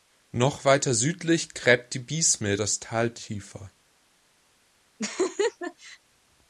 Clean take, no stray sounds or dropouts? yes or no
no